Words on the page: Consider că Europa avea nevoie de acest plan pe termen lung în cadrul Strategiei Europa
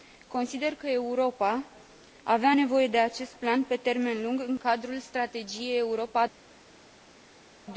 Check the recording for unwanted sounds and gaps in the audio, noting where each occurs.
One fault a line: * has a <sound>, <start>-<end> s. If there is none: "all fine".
all fine